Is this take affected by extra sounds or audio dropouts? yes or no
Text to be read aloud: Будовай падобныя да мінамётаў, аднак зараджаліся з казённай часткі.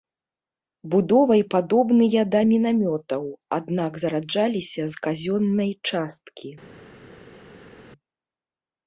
no